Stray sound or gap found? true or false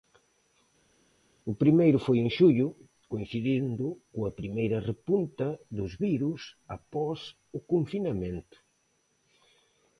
false